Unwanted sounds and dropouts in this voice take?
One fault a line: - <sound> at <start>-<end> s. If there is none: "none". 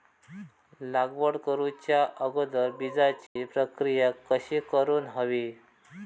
- dropout at 3.3-3.4 s